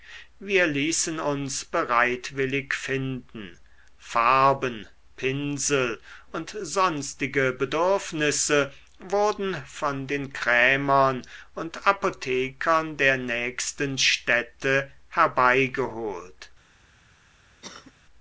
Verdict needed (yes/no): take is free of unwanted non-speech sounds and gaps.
no